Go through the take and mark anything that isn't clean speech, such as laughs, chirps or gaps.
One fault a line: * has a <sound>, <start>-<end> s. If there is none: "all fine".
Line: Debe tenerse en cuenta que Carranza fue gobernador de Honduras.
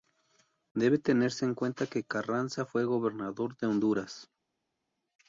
all fine